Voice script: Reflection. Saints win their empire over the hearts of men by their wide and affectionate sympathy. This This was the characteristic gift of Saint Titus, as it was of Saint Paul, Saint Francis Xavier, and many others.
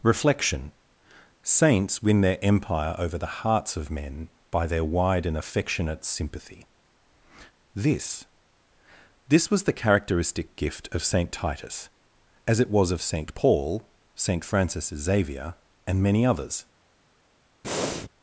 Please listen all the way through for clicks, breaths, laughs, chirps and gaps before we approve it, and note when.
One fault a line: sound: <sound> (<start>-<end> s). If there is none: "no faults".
sound: breath (17.6-18.1 s)